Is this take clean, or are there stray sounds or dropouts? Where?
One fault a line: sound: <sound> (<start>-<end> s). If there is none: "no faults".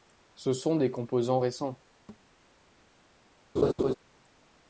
sound: thud (2.1-2.3 s)
sound: laugh (3.6-3.9 s)